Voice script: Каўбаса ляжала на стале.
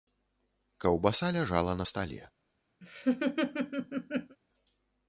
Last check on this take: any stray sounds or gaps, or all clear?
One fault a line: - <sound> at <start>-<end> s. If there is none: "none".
- laugh at 2.8-4.4 s